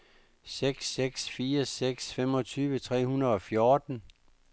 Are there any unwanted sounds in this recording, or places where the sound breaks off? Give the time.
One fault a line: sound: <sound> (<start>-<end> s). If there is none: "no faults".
no faults